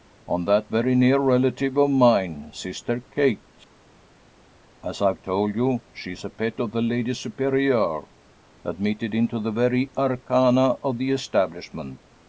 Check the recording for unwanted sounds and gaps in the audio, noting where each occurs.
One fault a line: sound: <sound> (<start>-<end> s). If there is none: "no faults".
no faults